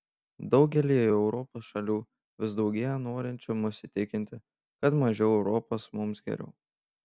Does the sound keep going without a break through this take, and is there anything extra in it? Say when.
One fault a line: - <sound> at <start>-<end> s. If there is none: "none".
none